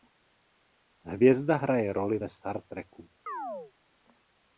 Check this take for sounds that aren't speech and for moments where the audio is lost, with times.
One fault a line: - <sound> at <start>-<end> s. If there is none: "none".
- chirp at 3.3-3.7 s